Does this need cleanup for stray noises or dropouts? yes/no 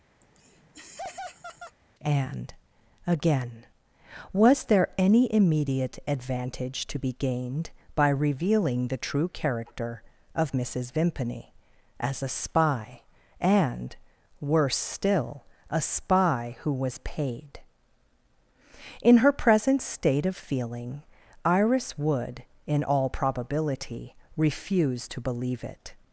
yes